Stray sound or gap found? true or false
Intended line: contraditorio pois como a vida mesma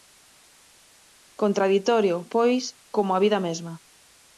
false